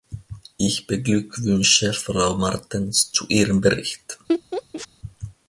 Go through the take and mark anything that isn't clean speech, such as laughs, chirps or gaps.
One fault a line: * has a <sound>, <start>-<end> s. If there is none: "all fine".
* has a laugh, 4.3-4.9 s